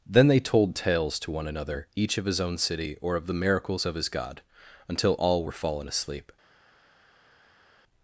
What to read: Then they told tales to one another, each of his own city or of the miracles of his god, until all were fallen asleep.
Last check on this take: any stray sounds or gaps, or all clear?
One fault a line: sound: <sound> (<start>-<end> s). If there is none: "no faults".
no faults